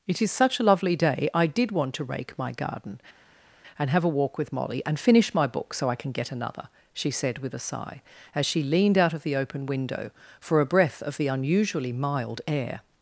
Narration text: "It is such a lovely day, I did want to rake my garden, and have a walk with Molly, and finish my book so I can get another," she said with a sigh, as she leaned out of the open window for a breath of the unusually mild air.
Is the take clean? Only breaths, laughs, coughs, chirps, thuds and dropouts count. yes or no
yes